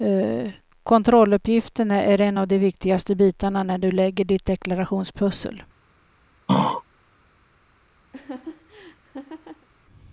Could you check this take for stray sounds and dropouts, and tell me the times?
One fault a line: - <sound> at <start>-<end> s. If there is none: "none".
- throat clearing at 6.5-6.8 s
- laugh at 8.1-9.7 s